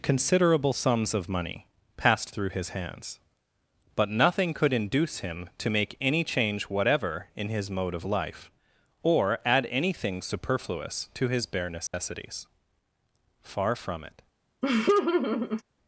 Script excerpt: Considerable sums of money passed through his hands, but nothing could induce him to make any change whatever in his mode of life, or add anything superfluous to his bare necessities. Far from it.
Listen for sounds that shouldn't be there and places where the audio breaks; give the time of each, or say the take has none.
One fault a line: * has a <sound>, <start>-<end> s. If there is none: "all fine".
* has a dropout, 11.9-11.9 s
* has a laugh, 14.6-15.6 s